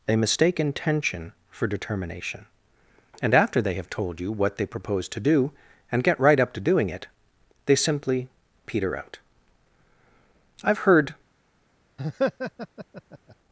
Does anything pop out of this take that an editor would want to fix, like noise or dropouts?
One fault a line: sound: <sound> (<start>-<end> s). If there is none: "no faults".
sound: laugh (12.0-13.4 s)